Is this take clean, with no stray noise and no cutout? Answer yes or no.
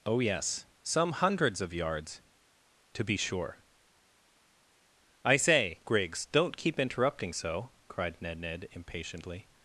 yes